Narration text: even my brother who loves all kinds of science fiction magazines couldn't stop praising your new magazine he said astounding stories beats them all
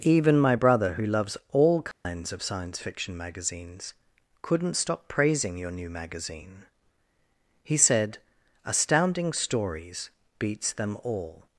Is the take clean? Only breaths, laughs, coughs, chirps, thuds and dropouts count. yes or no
no